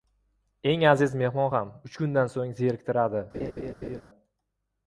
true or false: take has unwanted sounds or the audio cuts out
true